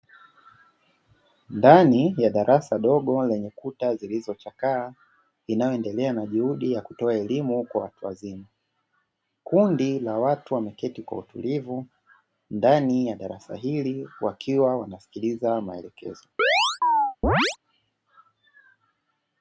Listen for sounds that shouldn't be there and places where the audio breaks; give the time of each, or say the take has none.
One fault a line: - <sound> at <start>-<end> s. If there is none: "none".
- chirp at 16.4-17.6 s